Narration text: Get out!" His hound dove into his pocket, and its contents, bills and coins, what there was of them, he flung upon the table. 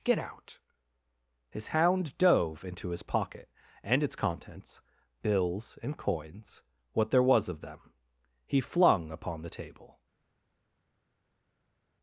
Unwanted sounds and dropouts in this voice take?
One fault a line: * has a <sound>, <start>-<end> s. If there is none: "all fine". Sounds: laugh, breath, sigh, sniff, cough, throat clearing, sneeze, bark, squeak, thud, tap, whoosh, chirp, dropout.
all fine